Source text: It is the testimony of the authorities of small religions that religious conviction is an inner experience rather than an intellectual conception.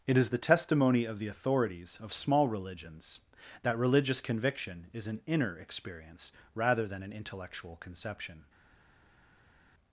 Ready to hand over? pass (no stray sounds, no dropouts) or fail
pass